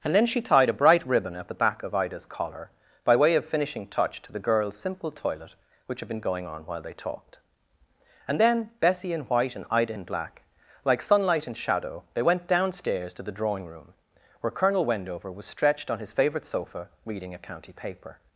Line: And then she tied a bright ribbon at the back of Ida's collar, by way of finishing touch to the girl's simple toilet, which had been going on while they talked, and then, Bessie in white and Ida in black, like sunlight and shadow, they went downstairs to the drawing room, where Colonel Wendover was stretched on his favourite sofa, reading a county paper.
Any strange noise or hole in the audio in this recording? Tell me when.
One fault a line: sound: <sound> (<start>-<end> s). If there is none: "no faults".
no faults